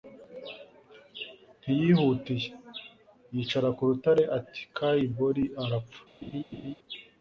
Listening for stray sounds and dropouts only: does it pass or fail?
fail